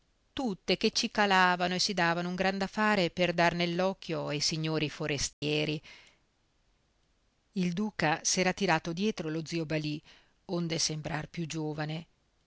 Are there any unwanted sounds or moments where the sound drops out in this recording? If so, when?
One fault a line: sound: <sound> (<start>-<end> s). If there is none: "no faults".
sound: dropout (5.3-5.4 s)